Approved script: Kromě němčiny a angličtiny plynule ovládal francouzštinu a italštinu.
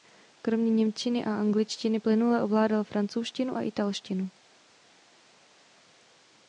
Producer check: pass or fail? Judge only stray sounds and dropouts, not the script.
pass